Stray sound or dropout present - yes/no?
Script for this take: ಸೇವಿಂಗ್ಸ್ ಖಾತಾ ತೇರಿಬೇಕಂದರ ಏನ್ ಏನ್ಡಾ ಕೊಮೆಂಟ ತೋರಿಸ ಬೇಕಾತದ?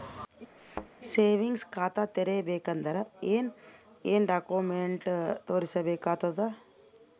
yes